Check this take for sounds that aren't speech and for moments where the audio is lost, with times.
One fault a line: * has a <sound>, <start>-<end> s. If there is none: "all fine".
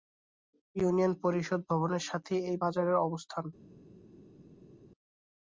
all fine